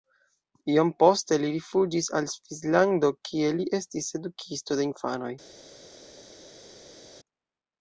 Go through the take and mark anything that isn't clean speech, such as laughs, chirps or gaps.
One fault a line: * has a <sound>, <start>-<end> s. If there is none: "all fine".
all fine